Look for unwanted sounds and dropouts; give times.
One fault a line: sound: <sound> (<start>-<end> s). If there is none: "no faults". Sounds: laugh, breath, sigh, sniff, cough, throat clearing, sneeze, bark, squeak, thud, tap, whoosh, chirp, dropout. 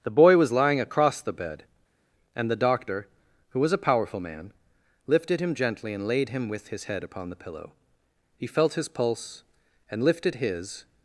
no faults